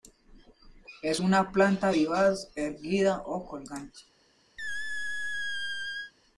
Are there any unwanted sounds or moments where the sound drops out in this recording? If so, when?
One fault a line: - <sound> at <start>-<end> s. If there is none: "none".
- squeak at 4.6-6.1 s